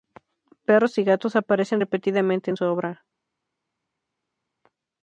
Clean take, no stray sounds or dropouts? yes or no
yes